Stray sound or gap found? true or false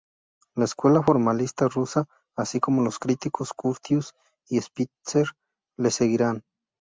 false